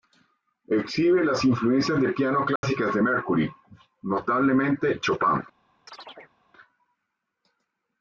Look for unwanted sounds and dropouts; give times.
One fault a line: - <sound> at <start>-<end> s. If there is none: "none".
- dropout at 2.6-2.6 s
- chirp at 5.9-6.4 s